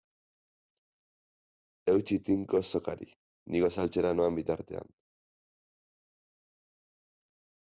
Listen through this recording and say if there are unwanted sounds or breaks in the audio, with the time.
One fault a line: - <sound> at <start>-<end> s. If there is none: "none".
none